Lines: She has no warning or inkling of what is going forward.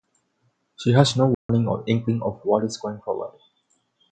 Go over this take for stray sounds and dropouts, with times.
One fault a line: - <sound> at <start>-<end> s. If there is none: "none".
- dropout at 1.3-1.5 s